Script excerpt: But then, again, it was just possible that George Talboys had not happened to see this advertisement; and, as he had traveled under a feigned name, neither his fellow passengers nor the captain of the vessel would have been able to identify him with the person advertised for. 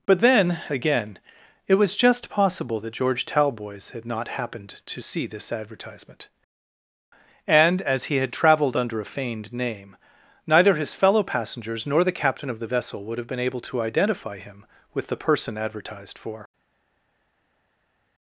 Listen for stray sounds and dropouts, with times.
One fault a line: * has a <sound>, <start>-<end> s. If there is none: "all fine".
all fine